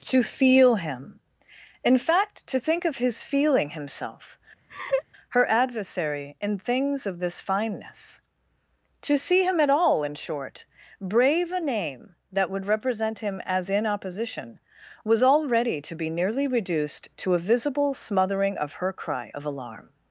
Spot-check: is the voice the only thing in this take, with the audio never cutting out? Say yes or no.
no